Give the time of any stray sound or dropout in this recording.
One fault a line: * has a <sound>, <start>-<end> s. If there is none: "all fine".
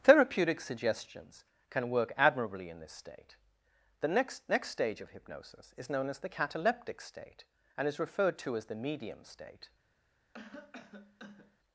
* has a cough, 10.3-11.6 s